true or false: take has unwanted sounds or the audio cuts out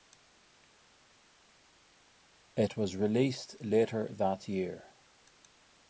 false